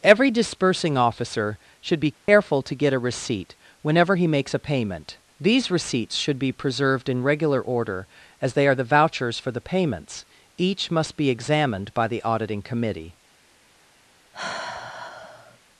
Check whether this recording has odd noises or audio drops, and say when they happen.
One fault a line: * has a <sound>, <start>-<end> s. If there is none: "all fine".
* has a dropout, 2.1-2.3 s
* has a sigh, 14.3-15.6 s